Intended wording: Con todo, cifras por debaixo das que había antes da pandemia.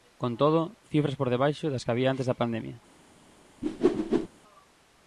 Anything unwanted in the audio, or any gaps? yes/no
yes